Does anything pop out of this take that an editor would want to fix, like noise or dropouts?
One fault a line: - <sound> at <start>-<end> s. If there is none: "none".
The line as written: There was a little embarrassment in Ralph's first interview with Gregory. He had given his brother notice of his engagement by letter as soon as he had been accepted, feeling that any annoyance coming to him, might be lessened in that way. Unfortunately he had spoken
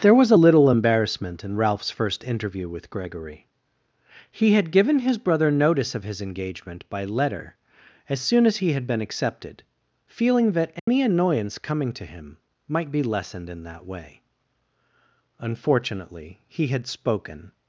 - dropout at 10.8-10.9 s